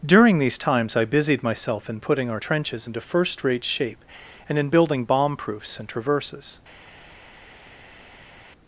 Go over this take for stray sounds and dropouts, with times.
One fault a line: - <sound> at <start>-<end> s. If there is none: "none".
none